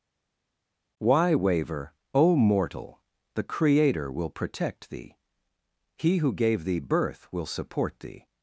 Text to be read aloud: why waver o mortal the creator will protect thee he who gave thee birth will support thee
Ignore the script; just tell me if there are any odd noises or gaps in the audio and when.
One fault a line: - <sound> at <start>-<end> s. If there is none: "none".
none